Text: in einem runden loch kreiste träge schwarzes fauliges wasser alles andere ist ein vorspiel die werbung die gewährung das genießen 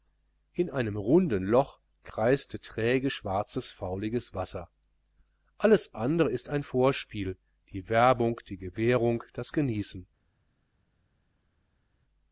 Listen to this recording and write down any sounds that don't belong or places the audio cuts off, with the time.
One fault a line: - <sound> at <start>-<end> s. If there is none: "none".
none